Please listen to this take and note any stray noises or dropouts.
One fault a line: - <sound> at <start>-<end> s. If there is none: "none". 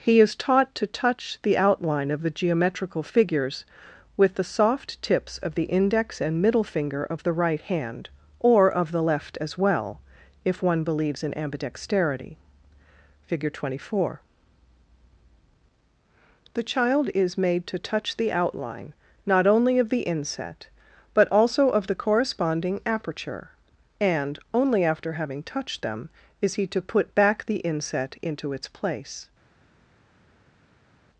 none